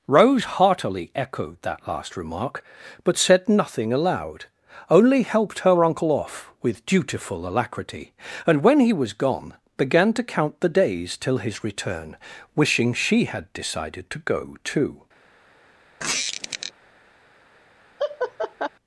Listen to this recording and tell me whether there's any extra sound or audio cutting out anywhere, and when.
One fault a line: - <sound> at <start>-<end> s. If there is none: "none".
- squeak at 16.0-16.7 s
- laugh at 18.0-18.7 s